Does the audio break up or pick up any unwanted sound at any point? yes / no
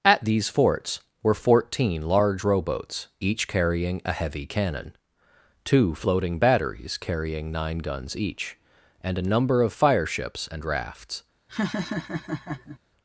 yes